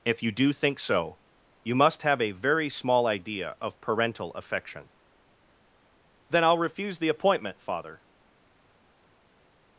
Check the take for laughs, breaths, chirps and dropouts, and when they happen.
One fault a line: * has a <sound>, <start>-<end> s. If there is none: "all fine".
all fine